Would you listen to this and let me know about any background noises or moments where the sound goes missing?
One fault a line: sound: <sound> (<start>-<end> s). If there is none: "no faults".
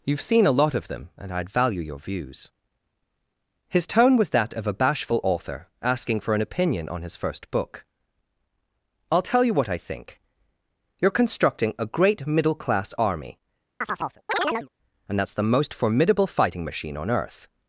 sound: chirp (13.8-14.7 s)